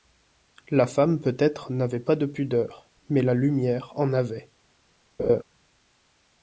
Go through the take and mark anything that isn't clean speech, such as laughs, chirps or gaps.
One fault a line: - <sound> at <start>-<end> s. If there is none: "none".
- laugh at 5.2-5.4 s